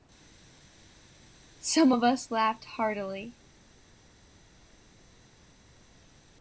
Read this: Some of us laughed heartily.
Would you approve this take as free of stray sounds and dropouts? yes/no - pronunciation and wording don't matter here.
yes